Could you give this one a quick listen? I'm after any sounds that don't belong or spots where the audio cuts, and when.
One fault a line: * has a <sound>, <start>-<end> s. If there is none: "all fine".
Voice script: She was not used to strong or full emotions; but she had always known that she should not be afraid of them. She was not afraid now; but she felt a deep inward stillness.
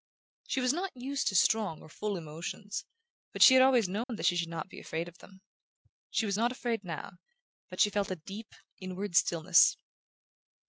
* has a dropout, 4.0-4.1 s